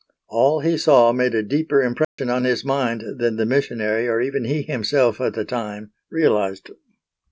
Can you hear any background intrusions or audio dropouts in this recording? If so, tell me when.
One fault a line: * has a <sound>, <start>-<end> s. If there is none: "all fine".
* has a dropout, 2.0-2.2 s